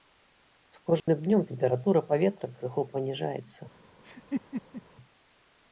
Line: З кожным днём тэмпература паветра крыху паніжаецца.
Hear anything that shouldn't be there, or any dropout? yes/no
yes